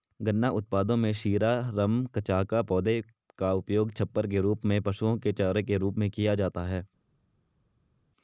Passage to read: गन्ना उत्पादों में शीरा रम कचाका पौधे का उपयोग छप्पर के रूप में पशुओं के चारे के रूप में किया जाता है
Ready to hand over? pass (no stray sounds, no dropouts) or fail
pass